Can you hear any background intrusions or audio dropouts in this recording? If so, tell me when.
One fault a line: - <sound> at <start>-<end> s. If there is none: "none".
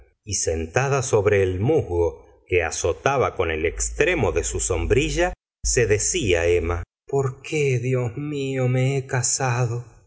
none